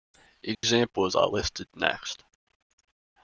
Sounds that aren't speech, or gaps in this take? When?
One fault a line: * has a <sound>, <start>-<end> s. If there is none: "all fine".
* has a dropout, 0.5-0.6 s